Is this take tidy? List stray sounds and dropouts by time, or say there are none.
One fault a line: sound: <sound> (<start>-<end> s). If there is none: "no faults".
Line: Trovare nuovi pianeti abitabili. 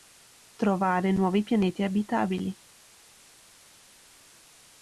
no faults